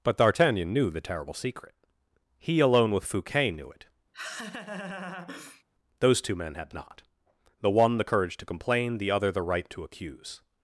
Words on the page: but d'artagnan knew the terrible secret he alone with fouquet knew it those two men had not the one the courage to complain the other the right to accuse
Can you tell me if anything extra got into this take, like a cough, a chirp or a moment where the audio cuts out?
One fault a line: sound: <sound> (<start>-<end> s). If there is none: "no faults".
sound: laugh (4.1-5.6 s)